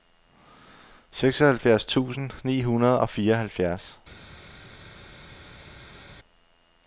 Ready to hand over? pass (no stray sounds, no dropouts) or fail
pass